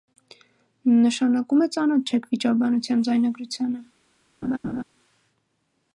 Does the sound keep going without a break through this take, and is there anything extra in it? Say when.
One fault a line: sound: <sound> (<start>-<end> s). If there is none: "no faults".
sound: laugh (4.4-4.8 s)